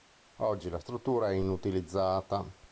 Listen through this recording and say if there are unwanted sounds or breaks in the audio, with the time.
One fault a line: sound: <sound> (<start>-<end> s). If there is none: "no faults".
no faults